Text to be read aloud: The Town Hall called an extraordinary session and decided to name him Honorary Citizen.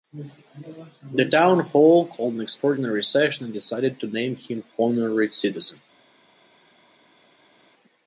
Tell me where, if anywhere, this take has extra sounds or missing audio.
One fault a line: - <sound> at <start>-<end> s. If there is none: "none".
none